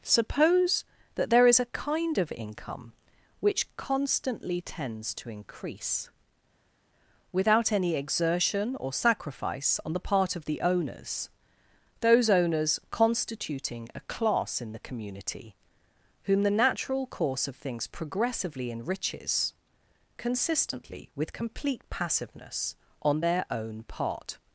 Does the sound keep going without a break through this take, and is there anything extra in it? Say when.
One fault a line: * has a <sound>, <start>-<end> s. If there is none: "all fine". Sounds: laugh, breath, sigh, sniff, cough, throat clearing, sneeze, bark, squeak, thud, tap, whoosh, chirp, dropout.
all fine